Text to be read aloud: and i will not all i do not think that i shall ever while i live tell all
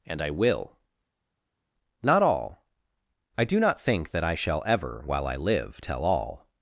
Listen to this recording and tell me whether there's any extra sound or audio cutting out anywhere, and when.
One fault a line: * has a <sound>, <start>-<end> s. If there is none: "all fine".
all fine